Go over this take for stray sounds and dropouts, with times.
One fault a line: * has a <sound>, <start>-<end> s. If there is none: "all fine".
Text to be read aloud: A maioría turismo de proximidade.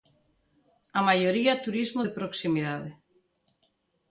all fine